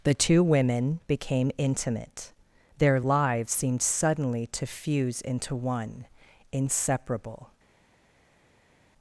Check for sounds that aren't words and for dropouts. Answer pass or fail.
pass